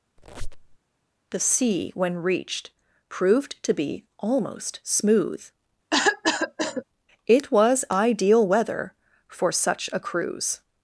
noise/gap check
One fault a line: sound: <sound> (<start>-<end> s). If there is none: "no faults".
sound: squeak (0.2-0.8 s)
sound: cough (5.9-6.8 s)